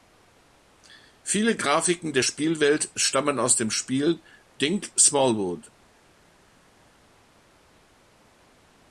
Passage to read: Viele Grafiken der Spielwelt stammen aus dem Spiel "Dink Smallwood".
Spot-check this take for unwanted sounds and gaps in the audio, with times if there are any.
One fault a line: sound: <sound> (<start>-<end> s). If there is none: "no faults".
no faults